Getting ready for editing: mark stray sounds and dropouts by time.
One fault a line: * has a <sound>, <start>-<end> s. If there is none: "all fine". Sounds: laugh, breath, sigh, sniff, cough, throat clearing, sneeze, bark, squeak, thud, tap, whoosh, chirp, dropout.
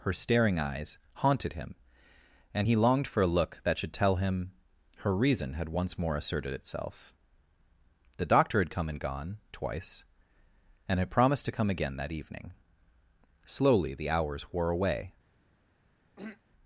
* has a throat clearing, 16.2-16.4 s